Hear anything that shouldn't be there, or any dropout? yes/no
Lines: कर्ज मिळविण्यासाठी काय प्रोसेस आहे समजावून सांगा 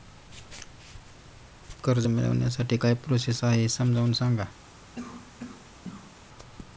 yes